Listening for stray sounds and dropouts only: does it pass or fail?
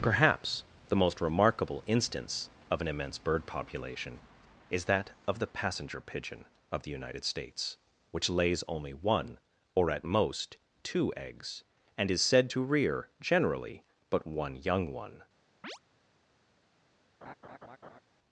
fail